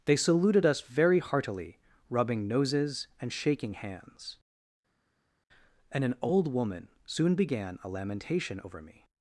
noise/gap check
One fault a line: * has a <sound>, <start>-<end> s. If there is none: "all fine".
all fine